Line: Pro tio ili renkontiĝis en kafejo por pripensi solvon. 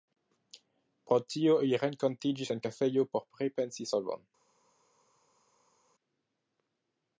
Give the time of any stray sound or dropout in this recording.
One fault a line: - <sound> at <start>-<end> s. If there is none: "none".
none